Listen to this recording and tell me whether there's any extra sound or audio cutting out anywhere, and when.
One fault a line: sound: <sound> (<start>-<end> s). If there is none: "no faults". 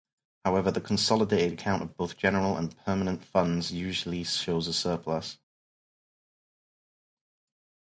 no faults